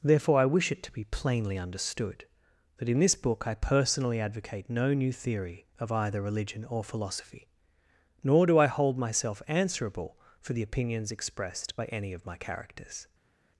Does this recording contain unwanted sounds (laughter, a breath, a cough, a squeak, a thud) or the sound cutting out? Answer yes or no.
no